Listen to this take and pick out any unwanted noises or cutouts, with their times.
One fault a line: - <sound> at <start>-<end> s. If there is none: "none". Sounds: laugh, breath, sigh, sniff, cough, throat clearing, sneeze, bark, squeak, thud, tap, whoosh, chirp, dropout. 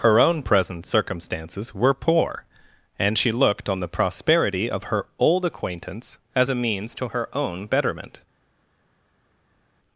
none